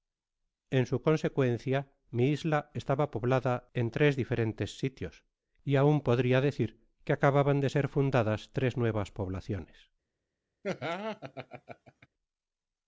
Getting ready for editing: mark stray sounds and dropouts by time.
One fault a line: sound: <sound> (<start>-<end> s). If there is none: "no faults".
sound: laugh (10.6-12.1 s)